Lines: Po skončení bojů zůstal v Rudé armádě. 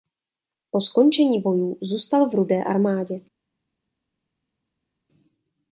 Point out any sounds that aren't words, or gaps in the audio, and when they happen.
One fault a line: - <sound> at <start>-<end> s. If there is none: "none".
none